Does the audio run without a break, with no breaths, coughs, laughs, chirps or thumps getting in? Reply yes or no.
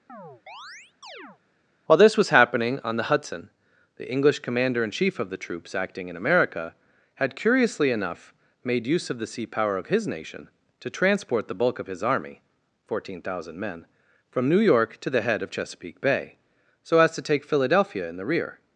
no